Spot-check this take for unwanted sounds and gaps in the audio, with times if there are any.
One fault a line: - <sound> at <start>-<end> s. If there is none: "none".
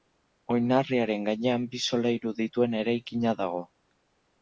none